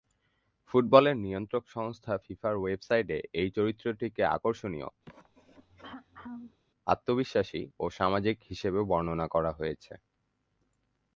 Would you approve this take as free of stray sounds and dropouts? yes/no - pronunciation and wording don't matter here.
no